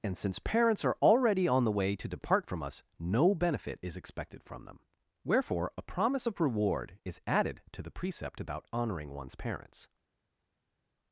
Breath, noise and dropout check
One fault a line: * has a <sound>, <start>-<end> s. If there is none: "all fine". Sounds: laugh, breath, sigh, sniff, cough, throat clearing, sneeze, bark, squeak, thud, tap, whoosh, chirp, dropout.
all fine